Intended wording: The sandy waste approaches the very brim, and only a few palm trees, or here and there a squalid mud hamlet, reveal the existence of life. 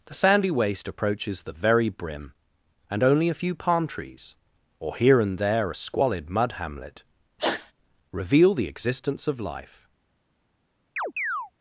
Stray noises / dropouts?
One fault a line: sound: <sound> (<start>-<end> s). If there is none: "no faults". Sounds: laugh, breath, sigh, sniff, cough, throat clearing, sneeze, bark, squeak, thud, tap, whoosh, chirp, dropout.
sound: sneeze (7.4-7.7 s)
sound: chirp (11.0-11.5 s)